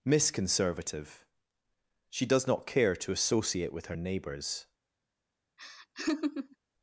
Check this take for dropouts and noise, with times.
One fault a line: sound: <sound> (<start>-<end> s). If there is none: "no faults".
sound: laugh (5.6-6.6 s)